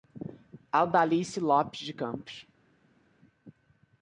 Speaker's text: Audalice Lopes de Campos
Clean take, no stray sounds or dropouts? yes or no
yes